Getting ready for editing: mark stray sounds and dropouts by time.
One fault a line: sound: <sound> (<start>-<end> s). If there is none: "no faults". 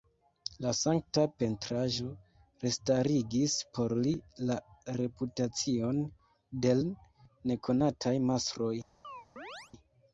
sound: chirp (9.0-9.7 s)